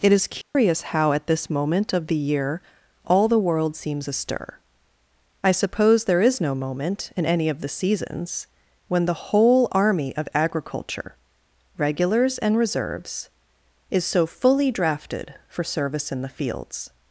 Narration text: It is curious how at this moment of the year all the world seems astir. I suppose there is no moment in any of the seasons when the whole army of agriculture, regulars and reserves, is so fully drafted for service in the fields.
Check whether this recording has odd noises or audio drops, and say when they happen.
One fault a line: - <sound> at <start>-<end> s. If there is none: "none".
- dropout at 0.4-0.6 s